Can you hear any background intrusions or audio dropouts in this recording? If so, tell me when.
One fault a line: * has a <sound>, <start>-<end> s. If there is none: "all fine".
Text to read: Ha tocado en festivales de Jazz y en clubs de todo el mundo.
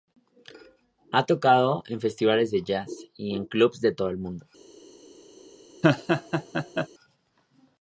* has a laugh, 5.8-6.9 s